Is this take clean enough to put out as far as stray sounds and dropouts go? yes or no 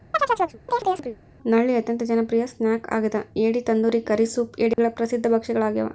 no